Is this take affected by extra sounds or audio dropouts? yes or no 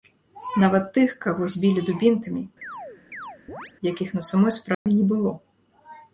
yes